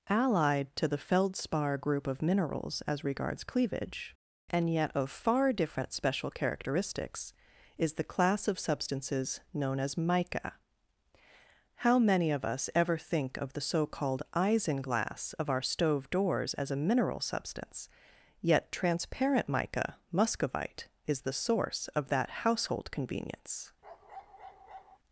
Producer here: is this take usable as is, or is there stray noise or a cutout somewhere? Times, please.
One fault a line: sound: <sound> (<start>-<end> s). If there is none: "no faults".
sound: bark (23.8-25.0 s)